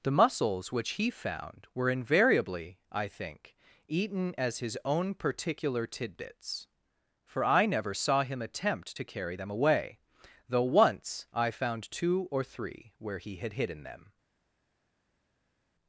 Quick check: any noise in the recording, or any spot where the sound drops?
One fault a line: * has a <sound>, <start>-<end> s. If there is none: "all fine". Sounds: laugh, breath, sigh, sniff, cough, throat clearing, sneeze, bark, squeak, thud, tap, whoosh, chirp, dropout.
all fine